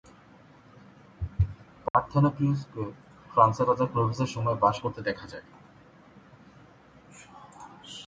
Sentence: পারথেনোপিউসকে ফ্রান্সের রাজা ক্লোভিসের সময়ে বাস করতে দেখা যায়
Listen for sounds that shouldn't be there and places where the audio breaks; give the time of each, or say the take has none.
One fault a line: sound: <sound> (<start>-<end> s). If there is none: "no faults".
sound: dropout (1.9-1.9 s)